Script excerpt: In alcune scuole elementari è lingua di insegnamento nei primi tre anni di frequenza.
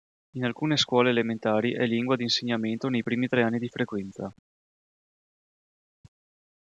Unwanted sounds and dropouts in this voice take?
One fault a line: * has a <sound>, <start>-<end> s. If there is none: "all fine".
all fine